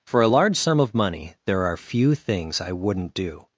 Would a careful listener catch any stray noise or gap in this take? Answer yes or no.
no